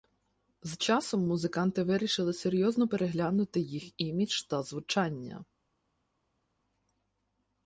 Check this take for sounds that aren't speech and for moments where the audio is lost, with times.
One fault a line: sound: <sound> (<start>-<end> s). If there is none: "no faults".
no faults